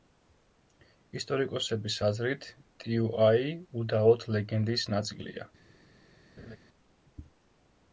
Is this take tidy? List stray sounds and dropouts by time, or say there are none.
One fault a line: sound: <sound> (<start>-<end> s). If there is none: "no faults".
sound: laugh (6.4-6.6 s)